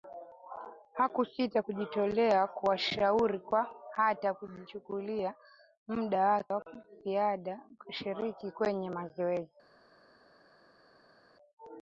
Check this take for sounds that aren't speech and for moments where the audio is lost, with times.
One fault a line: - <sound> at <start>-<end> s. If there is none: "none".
none